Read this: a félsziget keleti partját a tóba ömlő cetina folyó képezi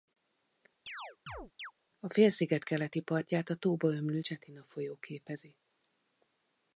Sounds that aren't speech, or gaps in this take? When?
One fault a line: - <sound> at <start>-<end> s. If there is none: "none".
- chirp at 0.9-1.7 s